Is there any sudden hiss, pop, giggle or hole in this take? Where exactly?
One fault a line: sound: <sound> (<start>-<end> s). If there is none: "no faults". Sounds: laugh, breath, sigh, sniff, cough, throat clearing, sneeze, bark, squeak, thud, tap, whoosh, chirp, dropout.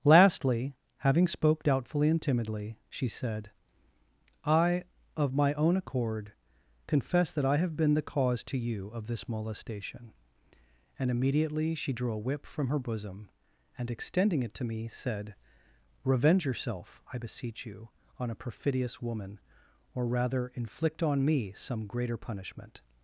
no faults